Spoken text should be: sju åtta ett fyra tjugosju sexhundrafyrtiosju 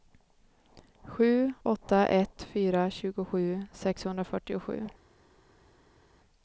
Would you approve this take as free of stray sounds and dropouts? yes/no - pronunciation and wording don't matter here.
yes